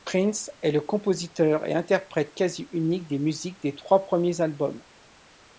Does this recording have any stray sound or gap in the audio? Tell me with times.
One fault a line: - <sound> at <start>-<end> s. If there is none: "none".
none